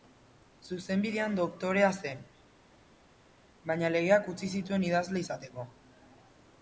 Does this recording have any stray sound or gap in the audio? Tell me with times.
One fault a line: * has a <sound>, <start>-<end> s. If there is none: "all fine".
all fine